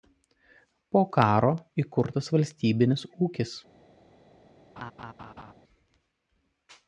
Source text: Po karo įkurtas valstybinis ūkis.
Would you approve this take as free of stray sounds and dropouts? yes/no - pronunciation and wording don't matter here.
no